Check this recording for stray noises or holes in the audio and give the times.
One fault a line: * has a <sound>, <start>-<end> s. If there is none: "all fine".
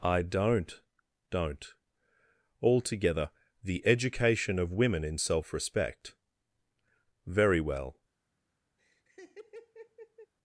* has a laugh, 8.8-10.3 s